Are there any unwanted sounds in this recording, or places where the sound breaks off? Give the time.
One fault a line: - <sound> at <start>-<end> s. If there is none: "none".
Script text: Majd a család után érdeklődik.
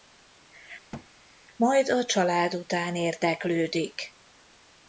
- thud at 0.9-1.1 s